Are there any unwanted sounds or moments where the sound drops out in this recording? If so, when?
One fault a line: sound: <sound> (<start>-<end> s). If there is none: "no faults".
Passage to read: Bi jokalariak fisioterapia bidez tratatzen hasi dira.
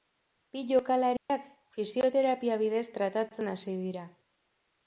sound: dropout (1.2-1.3 s)